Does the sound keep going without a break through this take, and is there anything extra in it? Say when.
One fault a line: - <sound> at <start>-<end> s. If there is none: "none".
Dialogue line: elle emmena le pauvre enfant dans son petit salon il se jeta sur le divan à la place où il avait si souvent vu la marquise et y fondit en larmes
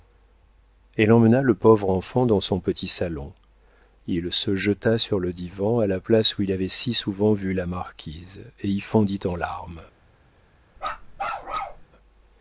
- bark at 10.8-11.9 s